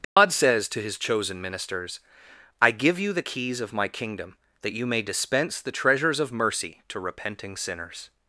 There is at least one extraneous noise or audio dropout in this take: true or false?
true